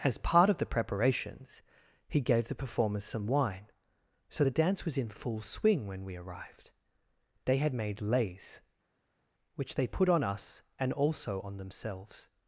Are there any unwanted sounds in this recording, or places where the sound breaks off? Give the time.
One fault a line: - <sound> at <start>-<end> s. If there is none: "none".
none